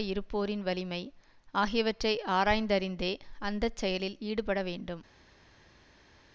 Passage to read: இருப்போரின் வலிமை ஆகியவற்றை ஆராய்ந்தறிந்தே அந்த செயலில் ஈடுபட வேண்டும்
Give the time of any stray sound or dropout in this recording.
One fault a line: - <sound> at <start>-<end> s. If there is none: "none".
none